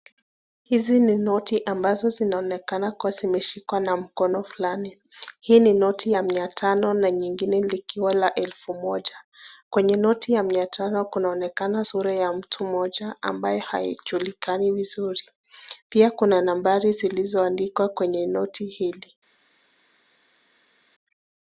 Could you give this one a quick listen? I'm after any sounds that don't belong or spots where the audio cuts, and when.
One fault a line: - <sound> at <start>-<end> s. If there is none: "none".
none